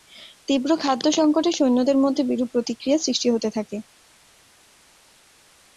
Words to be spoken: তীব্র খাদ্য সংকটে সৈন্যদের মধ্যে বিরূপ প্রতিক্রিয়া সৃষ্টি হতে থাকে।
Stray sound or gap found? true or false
false